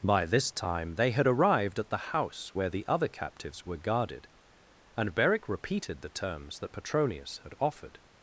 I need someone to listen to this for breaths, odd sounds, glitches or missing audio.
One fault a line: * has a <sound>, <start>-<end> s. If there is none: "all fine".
all fine